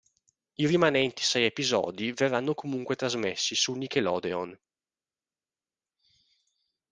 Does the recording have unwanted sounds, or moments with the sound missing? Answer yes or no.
no